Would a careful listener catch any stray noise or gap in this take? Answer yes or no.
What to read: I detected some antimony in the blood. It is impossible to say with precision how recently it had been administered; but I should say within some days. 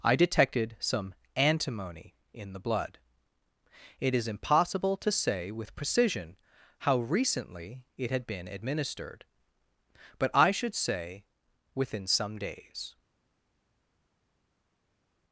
no